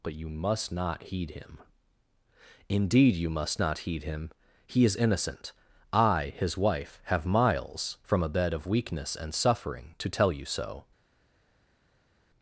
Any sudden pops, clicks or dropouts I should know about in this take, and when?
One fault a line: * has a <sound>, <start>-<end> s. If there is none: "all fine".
all fine